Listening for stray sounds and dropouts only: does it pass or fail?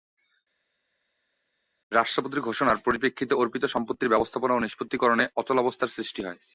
pass